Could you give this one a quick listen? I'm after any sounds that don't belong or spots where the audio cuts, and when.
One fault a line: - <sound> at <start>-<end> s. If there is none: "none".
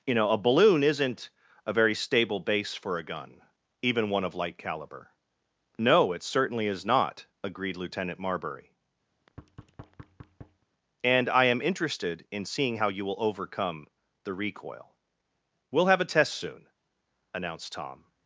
- thud at 9.1-10.6 s